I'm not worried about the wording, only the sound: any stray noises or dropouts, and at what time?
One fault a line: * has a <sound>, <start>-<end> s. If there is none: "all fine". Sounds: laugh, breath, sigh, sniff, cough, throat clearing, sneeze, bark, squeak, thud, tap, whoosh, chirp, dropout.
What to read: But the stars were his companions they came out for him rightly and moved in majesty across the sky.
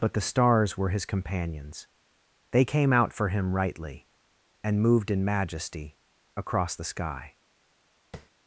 * has a tap, 8.1-8.3 s